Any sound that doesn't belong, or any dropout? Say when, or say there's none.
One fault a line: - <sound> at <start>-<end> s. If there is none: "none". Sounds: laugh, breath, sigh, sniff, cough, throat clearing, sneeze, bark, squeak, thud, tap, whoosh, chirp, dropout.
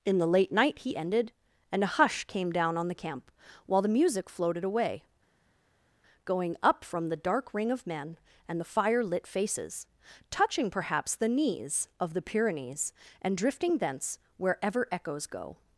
none